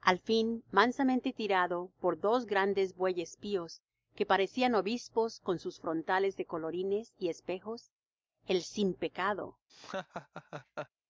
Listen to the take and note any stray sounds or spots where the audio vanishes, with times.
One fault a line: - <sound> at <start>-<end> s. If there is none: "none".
- laugh at 9.7-10.9 s